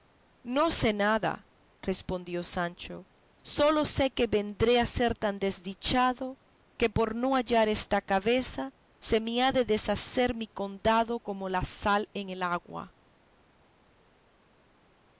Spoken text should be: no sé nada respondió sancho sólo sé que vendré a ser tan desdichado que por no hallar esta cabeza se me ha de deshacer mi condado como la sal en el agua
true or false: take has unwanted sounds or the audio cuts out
false